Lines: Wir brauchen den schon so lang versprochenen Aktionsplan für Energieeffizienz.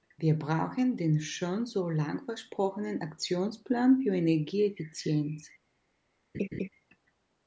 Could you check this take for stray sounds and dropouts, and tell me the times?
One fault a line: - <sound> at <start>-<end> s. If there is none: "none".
- laugh at 6.3-6.7 s